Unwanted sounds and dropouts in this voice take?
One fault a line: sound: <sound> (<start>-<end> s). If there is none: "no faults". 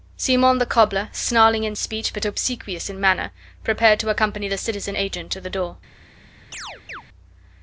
sound: chirp (6.5-7.0 s)